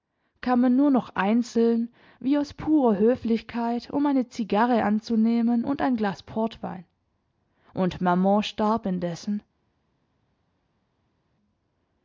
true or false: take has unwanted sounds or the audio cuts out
false